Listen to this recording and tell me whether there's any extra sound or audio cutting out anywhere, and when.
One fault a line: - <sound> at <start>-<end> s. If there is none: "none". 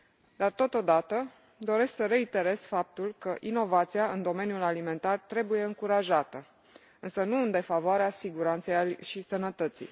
none